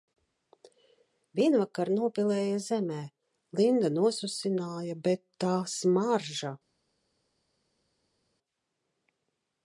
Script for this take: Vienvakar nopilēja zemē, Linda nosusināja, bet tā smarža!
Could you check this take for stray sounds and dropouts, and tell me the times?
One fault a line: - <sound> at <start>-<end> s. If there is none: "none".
none